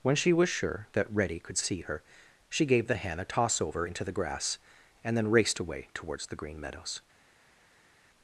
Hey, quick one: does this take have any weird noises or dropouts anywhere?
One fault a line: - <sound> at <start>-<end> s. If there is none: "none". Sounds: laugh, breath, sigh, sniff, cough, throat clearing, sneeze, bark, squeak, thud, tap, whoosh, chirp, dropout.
none